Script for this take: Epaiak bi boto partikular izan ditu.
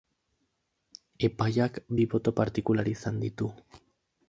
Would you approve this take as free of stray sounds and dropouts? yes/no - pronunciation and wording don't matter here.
yes